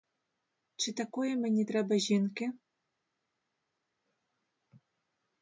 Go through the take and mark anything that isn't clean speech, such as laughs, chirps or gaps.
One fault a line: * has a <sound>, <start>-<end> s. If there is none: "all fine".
all fine